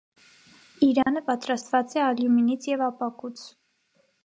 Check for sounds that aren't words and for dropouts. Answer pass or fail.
fail